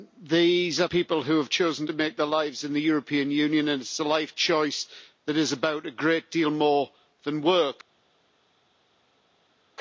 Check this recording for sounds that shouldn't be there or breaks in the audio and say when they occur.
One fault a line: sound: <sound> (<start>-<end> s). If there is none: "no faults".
no faults